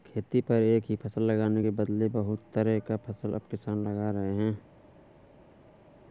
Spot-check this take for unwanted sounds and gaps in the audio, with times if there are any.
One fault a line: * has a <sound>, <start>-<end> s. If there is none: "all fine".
all fine